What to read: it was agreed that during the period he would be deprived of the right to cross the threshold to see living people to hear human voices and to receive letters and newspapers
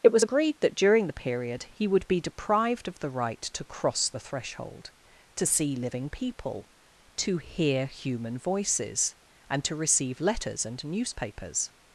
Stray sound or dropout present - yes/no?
no